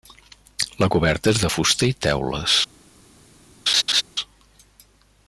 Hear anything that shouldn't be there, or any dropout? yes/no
yes